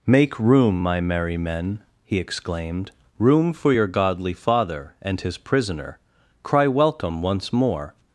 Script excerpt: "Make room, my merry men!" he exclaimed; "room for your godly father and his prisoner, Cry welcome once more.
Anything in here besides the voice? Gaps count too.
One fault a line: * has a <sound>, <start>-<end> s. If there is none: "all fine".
all fine